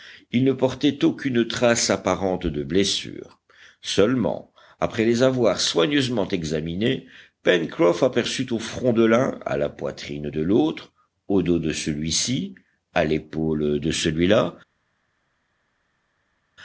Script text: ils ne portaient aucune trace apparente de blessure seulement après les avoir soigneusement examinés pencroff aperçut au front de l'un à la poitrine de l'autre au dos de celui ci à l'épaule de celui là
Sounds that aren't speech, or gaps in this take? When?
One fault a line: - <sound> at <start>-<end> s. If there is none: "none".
none